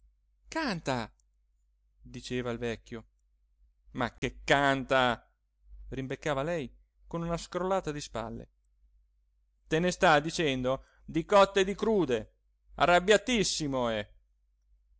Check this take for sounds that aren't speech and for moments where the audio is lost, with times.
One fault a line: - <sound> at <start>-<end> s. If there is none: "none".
- dropout at 4.2-4.2 s